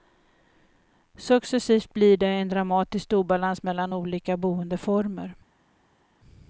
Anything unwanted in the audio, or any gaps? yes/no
no